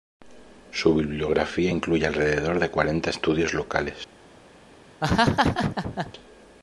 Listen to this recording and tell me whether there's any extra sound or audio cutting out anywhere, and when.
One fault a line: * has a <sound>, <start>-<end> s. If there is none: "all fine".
* has a laugh, 5.0-6.1 s